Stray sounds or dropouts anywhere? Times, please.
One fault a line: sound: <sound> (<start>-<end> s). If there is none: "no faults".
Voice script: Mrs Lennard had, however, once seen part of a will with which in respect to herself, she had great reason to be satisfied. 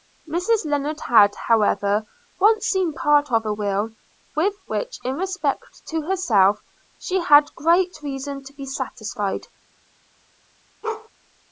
sound: bark (10.8-11.1 s)